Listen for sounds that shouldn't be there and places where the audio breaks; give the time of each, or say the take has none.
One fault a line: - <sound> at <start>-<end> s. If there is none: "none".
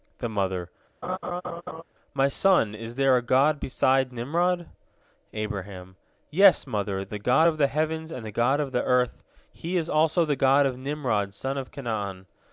- laugh at 1.0-1.8 s